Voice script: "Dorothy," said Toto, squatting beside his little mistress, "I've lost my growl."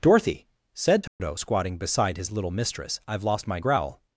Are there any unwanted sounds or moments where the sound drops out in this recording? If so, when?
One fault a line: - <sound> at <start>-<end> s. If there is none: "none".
- dropout at 1.1-1.2 s